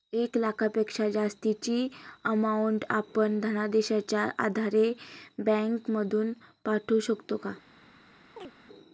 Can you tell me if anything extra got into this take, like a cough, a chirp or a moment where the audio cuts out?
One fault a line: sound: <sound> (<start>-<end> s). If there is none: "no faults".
sound: chirp (8.4-8.5 s)